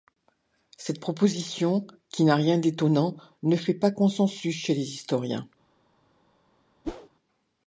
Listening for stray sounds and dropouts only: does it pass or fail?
fail